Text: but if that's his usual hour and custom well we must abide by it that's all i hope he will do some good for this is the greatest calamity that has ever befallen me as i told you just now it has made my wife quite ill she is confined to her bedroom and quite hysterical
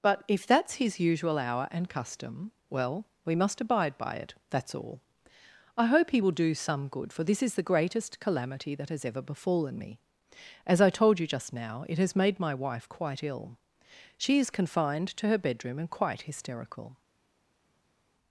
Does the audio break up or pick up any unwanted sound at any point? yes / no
no